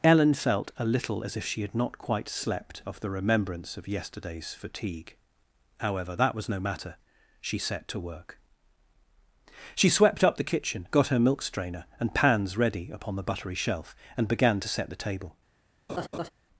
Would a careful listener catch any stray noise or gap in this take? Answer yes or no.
yes